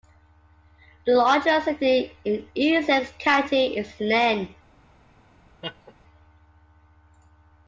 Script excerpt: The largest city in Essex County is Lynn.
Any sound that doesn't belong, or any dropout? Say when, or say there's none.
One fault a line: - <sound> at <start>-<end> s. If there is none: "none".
- laugh at 5.6-5.9 s